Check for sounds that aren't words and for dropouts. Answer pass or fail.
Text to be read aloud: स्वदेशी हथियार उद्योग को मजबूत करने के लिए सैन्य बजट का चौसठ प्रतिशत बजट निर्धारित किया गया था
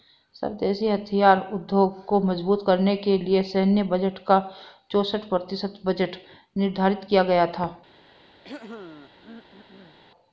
fail